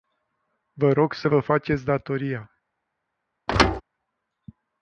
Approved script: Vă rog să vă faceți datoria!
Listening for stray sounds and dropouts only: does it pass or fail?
fail